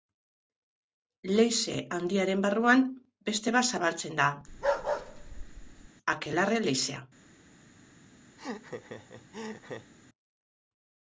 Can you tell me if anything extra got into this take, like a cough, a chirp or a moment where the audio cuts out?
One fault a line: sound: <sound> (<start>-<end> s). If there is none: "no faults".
sound: bark (4.5-5.9 s)
sound: laugh (8.4-9.9 s)